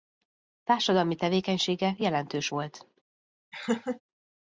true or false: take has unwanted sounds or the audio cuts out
true